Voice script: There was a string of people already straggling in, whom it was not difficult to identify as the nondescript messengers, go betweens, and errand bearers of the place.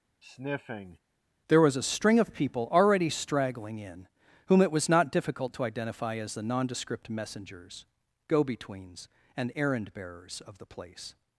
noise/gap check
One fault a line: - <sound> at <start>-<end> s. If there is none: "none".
- sniff at 0.2-1.0 s